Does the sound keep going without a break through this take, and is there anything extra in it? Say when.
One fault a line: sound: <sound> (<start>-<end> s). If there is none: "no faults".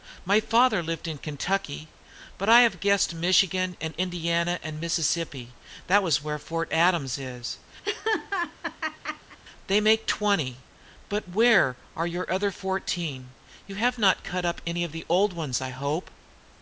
sound: laugh (7.8-9.4 s)